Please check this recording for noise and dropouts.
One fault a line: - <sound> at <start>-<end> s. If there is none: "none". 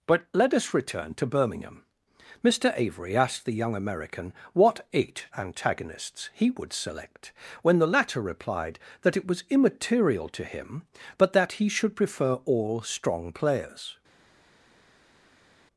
none